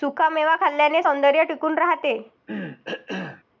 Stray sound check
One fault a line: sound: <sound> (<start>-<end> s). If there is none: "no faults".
sound: cough (2.5-3.4 s)